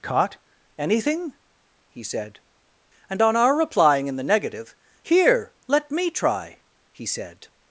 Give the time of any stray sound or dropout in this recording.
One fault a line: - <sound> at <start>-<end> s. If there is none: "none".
none